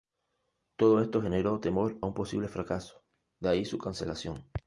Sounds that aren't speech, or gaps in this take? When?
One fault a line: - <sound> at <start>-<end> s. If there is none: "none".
none